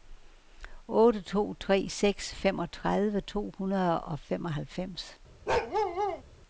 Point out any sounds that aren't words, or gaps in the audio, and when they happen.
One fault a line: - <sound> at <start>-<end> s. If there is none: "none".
- bark at 5.5-6.2 s